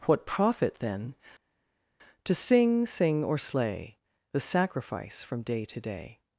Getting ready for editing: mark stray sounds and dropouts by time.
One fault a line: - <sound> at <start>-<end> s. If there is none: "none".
none